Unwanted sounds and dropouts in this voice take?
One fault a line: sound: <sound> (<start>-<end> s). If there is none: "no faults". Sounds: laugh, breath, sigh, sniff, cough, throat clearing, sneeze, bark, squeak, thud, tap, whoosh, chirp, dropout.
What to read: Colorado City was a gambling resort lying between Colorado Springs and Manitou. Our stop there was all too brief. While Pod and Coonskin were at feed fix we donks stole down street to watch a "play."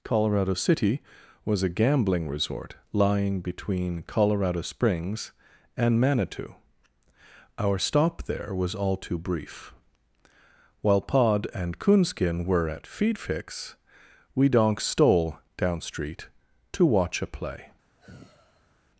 sound: sigh (18.0-18.8 s)